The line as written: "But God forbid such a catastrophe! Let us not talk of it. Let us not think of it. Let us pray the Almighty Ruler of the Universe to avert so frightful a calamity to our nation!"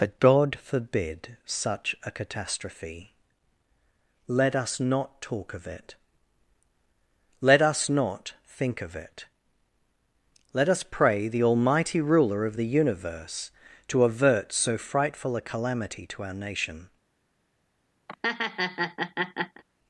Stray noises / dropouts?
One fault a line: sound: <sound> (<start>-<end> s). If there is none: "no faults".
sound: laugh (18.1-19.6 s)